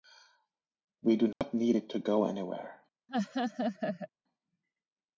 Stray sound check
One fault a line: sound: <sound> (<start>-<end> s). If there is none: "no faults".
sound: dropout (1.3-1.4 s)
sound: laugh (3.1-4.1 s)